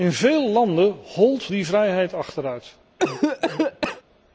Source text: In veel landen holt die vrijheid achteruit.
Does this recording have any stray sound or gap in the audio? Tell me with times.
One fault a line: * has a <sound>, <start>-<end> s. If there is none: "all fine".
* has a cough, 3.0-4.0 s